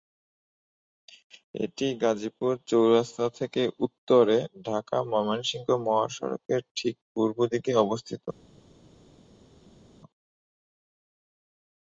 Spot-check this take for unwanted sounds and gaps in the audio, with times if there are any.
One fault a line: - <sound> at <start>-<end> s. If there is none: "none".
none